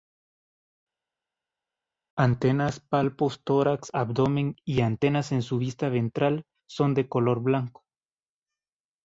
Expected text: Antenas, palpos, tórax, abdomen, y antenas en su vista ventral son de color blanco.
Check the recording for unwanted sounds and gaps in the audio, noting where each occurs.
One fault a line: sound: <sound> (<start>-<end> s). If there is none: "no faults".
no faults